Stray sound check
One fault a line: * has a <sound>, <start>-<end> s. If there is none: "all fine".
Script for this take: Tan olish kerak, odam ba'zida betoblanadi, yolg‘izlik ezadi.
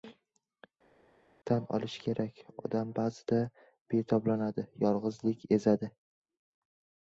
all fine